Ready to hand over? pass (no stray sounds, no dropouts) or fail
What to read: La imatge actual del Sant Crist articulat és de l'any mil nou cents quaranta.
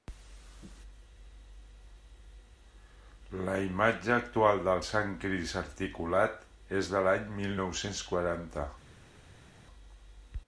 pass